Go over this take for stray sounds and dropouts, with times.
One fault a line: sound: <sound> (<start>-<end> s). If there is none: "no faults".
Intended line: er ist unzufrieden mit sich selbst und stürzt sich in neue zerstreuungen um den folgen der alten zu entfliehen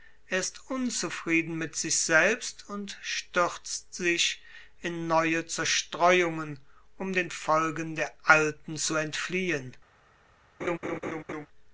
sound: laugh (10.6-11.5 s)